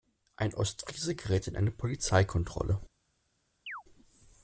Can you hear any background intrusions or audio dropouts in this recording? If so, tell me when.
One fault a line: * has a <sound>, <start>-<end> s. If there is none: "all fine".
* has a chirp, 3.7-3.8 s